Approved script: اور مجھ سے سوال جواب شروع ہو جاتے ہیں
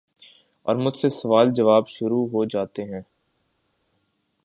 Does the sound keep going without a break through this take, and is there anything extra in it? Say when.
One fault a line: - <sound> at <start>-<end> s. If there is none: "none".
none